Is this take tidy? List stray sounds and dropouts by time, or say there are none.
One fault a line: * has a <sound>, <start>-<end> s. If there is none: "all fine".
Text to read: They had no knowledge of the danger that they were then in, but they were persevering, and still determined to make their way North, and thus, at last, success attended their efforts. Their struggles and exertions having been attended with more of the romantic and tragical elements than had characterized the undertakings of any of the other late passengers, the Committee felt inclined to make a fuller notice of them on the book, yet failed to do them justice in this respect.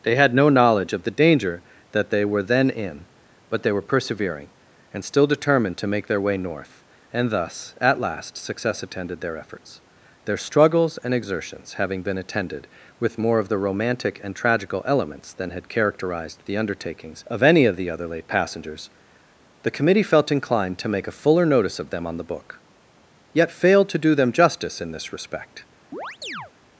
* has a chirp, 25.9-26.5 s